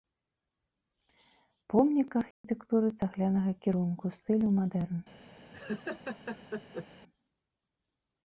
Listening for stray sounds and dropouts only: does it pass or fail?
fail